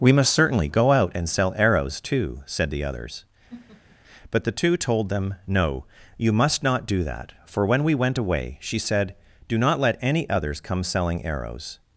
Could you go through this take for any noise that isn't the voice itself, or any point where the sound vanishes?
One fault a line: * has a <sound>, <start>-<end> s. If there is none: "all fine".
* has a laugh, 3.5-4.0 s